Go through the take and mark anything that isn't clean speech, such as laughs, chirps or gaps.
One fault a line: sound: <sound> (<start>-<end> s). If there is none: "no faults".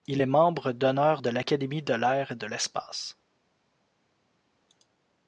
no faults